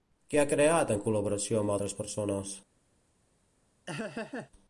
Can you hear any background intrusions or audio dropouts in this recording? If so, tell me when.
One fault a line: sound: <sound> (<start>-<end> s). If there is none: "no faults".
sound: laugh (3.9-4.5 s)